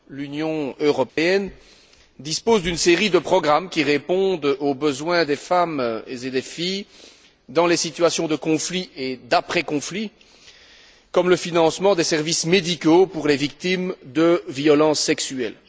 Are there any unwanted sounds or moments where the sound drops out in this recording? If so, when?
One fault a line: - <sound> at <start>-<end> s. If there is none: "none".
- dropout at 1.1-1.2 s